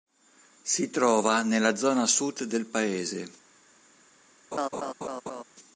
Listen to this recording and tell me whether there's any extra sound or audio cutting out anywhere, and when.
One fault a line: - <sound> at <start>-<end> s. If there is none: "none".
- laugh at 4.5-5.4 s